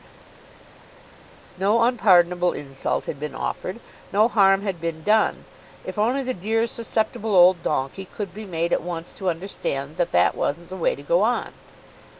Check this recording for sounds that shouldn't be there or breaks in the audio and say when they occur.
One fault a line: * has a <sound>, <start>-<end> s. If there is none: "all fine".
all fine